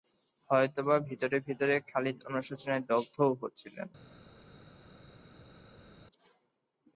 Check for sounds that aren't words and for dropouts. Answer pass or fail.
pass